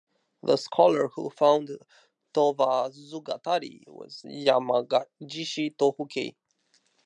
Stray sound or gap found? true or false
false